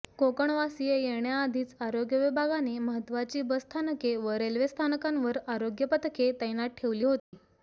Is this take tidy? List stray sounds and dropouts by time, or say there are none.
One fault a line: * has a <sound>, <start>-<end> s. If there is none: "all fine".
* has a dropout, 7.2-7.3 s